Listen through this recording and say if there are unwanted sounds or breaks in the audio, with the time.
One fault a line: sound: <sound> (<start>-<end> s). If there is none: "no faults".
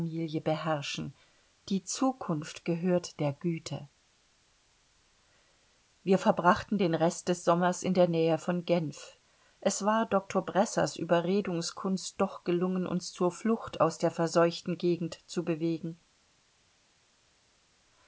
no faults